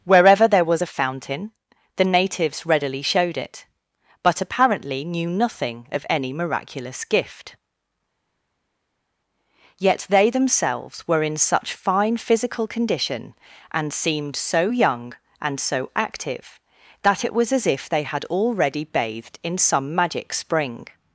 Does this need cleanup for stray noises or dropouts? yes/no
no